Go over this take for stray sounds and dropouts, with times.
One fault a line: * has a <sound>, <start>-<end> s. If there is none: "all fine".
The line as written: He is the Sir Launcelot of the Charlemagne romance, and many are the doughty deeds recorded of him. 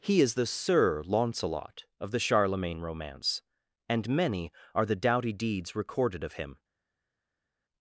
all fine